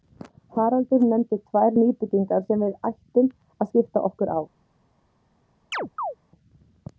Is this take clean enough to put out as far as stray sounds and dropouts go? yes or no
no